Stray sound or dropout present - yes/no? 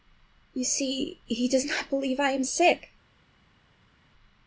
no